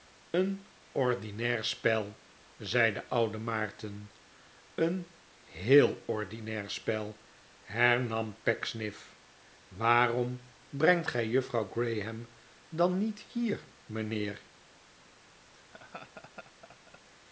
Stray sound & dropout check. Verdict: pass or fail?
fail